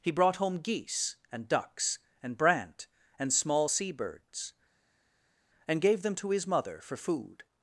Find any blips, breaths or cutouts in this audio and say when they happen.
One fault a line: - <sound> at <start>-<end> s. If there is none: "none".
none